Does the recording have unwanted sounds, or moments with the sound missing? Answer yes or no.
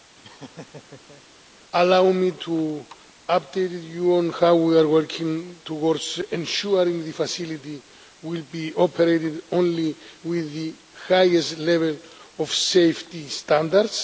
yes